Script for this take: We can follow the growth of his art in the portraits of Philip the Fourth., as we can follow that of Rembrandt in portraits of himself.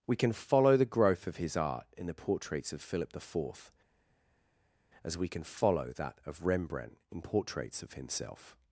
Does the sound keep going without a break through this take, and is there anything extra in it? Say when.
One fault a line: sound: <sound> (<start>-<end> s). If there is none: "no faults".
no faults